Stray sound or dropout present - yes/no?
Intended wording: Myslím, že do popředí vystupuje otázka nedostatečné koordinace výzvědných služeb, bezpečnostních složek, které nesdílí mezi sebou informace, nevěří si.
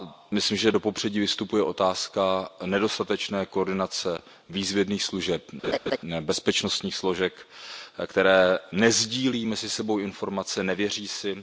yes